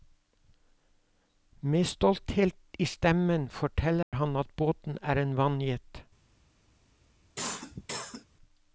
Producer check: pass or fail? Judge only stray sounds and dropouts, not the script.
fail